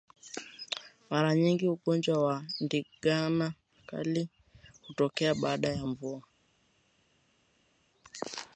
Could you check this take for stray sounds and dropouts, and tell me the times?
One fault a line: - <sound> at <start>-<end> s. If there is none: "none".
none